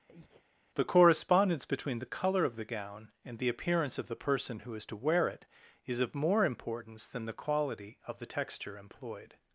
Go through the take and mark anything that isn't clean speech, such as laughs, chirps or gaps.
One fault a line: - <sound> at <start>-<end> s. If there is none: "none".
- breath at 0.1-0.4 s